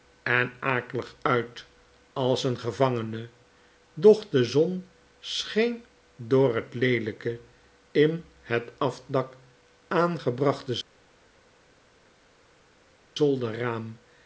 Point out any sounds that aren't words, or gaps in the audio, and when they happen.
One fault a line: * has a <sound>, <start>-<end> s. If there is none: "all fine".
all fine